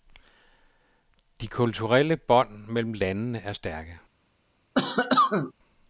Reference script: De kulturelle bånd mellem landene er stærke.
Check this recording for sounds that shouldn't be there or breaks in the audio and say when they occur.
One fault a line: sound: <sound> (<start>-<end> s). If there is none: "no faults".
sound: cough (4.7-5.5 s)